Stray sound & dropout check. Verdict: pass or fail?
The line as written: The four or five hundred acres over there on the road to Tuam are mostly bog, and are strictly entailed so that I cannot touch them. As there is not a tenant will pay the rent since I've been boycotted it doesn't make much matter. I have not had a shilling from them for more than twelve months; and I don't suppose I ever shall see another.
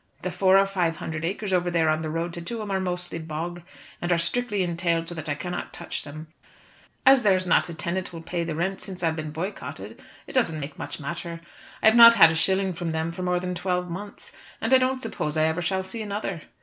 pass